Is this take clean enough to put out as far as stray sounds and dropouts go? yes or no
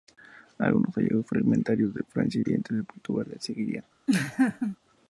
no